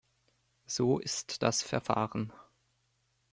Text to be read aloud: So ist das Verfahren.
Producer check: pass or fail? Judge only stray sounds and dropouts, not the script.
pass